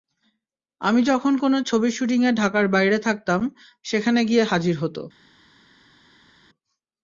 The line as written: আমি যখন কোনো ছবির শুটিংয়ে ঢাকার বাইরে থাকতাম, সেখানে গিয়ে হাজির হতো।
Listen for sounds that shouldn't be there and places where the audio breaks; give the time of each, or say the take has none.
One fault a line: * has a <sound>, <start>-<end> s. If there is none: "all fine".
all fine